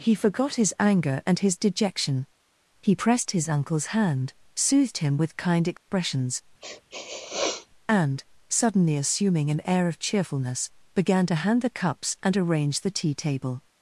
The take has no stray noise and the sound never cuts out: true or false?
false